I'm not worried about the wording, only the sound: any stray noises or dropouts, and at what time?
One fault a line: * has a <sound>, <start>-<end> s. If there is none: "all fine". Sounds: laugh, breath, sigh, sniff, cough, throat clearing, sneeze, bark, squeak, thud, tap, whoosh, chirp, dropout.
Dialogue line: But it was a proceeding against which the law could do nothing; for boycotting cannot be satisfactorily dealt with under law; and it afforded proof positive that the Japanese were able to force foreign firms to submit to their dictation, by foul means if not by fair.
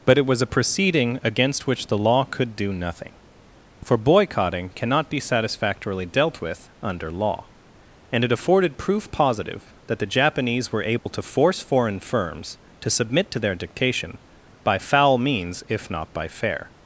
* has a dropout, 11.0-11.1 s